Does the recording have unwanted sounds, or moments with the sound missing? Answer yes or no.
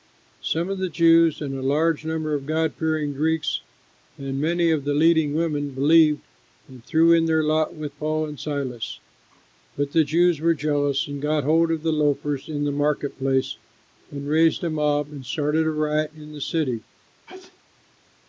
yes